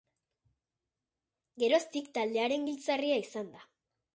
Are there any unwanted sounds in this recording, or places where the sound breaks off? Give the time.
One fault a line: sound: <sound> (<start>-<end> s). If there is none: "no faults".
no faults